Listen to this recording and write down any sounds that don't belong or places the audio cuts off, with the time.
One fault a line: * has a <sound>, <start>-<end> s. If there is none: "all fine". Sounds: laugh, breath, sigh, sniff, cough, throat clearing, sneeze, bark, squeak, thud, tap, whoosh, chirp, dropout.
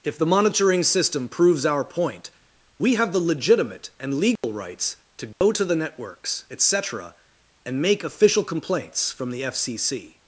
* has a dropout, 4.4-4.4 s
* has a dropout, 5.3-5.4 s